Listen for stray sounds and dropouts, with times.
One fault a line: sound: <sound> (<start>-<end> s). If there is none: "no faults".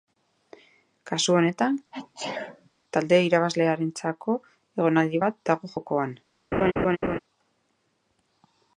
sound: sneeze (1.9-2.7 s)
sound: laugh (6.5-7.2 s)